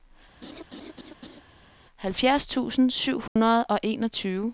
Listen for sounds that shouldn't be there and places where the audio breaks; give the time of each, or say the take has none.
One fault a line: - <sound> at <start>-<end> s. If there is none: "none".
- laugh at 0.4-1.4 s
- dropout at 3.3-3.4 s